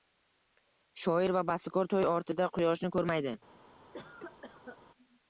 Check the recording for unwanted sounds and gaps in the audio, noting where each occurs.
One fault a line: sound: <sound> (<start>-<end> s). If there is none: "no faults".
sound: cough (3.9-4.8 s)